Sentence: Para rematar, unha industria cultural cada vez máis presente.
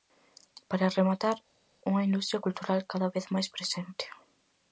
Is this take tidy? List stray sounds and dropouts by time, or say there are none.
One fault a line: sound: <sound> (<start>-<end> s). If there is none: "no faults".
no faults